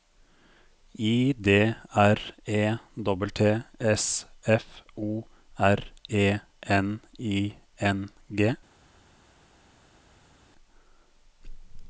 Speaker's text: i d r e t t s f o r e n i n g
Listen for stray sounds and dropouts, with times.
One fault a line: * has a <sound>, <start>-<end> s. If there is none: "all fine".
all fine